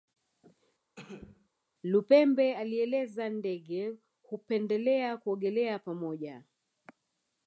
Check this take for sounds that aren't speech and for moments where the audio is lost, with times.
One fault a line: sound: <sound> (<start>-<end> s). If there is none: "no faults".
sound: cough (1.0-1.5 s)